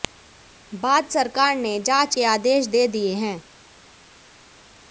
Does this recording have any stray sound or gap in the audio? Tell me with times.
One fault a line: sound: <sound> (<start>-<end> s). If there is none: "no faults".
no faults